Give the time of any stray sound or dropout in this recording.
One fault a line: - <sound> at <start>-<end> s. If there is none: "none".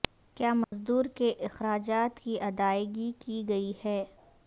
- dropout at 0.6-0.7 s